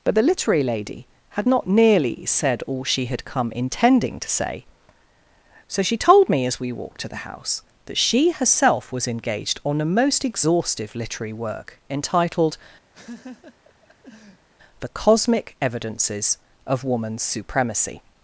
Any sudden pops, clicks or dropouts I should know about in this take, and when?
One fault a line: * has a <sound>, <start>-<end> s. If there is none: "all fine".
* has a laugh, 12.9-14.5 s